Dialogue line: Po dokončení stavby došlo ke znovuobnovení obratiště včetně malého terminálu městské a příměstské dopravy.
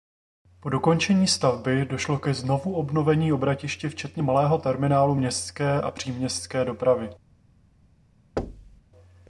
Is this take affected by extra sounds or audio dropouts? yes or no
yes